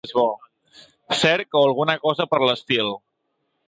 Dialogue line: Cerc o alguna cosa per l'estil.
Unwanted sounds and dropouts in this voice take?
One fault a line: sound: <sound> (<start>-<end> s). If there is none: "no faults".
no faults